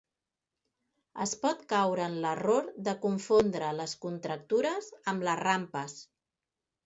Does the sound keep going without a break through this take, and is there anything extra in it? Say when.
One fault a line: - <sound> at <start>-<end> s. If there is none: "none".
none